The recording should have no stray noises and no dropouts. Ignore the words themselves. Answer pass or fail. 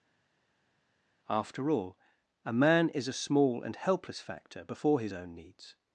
pass